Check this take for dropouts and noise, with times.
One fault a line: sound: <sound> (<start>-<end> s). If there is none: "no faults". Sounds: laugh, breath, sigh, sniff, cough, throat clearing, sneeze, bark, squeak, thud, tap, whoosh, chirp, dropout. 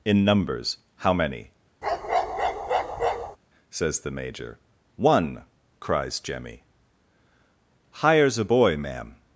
sound: bark (1.8-3.4 s)